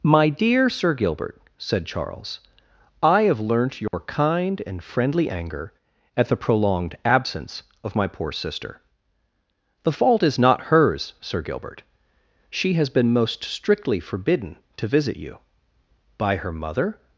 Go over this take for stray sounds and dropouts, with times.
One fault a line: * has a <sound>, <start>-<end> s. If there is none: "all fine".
* has a dropout, 3.9-3.9 s